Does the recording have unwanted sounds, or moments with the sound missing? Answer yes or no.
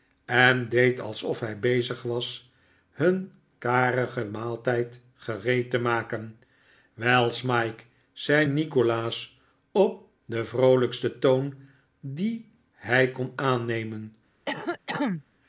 yes